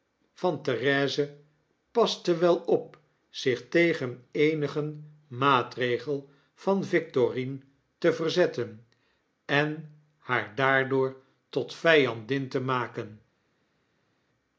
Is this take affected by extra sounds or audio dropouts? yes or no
no